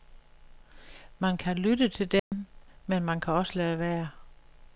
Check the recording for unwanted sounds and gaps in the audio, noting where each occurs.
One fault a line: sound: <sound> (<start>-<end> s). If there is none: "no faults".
sound: dropout (2.2-2.3 s)